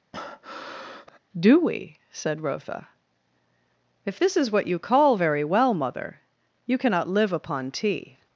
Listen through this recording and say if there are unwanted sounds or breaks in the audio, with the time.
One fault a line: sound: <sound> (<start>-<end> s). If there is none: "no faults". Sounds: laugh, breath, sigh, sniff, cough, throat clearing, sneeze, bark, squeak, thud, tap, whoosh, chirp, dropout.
sound: breath (0.1-1.2 s)